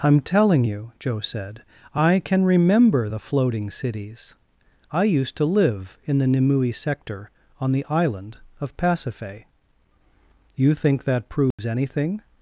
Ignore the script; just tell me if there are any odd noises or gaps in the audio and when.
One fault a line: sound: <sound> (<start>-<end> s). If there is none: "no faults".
sound: dropout (11.5-11.6 s)